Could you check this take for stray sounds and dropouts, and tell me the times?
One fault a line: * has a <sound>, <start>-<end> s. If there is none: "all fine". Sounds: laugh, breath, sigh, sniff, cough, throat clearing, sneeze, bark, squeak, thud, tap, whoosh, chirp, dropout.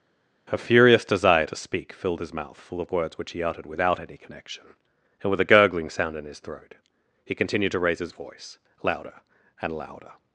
all fine